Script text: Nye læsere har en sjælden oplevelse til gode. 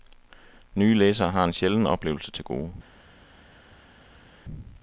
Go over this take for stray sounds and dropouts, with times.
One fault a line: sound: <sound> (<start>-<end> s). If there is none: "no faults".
no faults